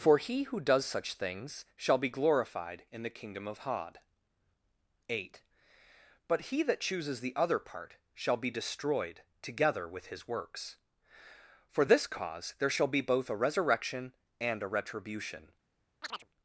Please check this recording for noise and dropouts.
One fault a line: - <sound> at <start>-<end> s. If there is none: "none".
- chirp at 16.0-16.3 s